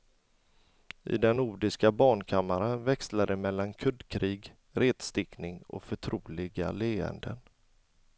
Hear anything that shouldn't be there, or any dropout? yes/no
no